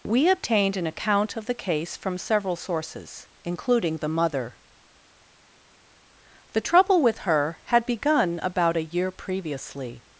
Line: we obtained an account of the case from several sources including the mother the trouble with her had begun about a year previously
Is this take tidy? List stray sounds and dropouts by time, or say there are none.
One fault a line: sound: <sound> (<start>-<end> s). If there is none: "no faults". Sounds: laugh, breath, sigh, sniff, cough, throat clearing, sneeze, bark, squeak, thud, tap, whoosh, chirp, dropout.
no faults